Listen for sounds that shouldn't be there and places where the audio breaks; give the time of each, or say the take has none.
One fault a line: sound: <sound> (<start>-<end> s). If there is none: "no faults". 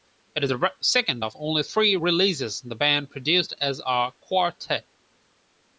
no faults